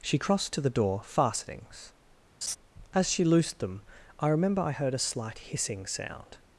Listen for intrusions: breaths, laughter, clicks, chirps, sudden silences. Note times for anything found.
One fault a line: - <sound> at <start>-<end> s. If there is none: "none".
- laugh at 2.4-2.6 s